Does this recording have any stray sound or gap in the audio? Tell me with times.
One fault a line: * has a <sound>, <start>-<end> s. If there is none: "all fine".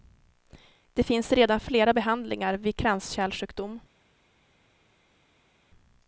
all fine